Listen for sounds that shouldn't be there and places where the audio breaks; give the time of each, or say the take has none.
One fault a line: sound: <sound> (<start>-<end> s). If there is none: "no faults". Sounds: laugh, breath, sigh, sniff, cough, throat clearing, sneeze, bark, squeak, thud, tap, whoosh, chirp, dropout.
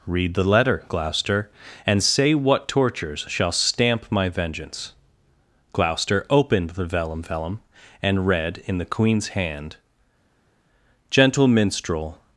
no faults